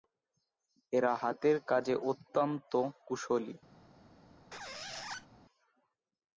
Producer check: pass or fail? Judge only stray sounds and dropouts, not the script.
fail